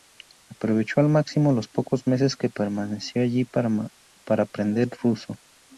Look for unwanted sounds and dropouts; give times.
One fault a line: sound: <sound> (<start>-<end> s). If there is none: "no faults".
no faults